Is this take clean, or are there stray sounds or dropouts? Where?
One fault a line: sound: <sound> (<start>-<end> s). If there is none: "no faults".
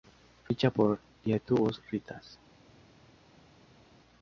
no faults